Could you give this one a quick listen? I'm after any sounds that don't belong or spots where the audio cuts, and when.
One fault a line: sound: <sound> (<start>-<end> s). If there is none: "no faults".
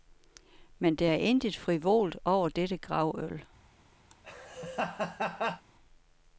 sound: laugh (4.1-5.6 s)